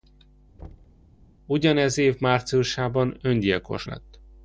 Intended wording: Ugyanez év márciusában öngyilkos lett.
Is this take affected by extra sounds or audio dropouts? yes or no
yes